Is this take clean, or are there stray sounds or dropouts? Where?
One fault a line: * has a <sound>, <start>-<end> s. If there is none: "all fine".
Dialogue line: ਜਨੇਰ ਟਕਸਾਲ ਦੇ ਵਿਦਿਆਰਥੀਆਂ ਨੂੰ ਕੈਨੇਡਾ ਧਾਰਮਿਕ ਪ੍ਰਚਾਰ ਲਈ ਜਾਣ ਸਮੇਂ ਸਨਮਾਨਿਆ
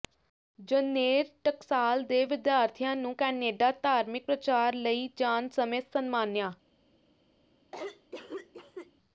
* has a cough, 7.7-8.9 s